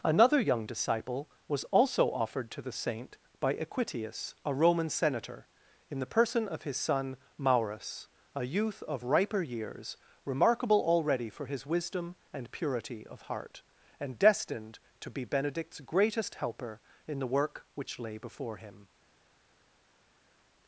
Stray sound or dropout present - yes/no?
no